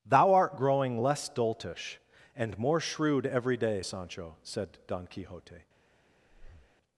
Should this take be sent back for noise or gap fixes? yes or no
yes